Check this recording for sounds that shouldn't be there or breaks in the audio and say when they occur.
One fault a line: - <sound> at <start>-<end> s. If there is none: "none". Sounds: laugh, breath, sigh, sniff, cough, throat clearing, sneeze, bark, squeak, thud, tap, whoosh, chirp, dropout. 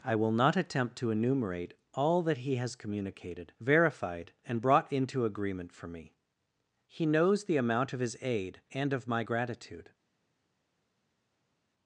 none